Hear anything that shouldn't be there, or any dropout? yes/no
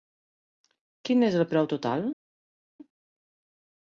no